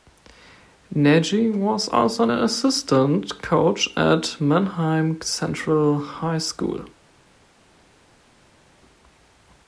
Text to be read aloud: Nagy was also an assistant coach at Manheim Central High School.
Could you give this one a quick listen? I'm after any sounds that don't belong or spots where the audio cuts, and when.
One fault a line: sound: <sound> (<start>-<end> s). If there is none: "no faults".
no faults